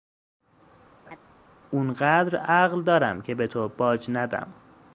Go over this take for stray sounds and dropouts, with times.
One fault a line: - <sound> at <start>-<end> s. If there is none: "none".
- laugh at 1.1-1.2 s